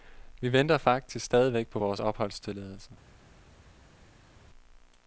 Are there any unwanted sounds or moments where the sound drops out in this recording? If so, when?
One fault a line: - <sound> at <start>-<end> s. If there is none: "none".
none